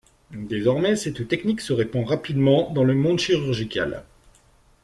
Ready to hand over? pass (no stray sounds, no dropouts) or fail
pass